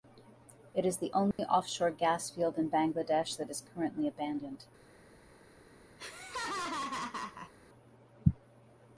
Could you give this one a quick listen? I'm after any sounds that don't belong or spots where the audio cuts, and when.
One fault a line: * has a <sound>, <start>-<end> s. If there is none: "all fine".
* has a dropout, 1.3-1.4 s
* has a laugh, 6.0-7.5 s